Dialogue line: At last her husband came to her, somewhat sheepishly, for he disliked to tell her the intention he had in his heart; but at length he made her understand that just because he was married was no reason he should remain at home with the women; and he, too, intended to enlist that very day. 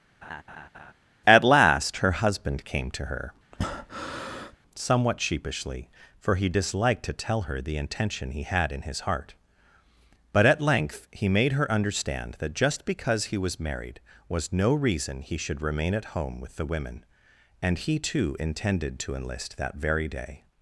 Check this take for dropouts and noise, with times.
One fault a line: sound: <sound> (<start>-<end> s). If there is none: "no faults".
sound: laugh (0.2-0.9 s)
sound: breath (3.5-4.6 s)